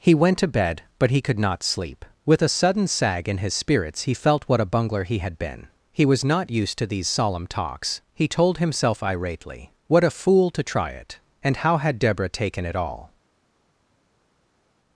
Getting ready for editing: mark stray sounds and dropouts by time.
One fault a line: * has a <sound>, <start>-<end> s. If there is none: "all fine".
all fine